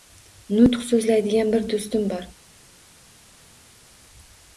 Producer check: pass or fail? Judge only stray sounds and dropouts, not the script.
pass